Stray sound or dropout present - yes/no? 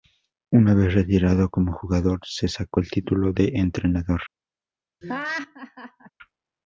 yes